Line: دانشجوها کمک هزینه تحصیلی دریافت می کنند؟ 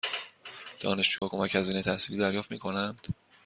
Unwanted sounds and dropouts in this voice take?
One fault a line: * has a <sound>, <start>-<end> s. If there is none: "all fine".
* has a dropout, 1.2-1.2 s